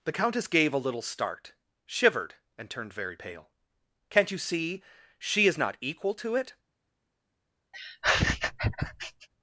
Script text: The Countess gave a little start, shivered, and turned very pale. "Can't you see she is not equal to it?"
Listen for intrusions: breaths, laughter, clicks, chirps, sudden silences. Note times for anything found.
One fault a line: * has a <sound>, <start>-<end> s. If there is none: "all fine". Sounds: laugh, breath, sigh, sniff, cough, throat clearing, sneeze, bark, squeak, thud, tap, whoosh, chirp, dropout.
* has a laugh, 7.7-9.3 s